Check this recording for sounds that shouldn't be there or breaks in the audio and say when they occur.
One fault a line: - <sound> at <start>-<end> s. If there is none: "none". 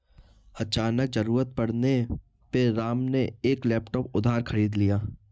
none